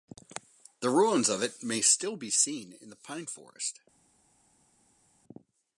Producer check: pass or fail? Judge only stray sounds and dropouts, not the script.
pass